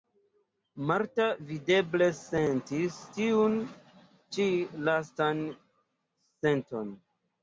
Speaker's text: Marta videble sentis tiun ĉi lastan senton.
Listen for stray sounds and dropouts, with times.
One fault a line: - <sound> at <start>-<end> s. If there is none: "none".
none